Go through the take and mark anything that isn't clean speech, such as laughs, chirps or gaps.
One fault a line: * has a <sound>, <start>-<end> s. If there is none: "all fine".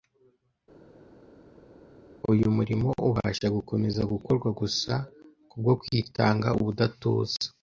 all fine